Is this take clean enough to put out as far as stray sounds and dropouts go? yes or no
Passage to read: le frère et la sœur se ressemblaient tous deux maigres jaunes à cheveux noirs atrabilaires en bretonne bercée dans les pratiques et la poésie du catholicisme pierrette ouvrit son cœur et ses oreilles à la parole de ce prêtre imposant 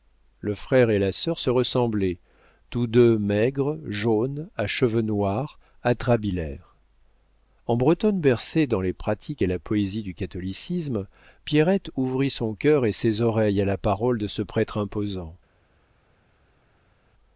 yes